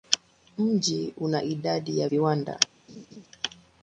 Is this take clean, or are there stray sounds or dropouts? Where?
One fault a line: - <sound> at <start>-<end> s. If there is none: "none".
- laugh at 2.9-3.3 s